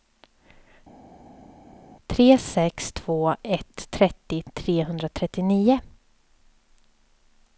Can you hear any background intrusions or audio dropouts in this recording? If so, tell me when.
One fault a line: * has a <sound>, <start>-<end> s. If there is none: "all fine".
all fine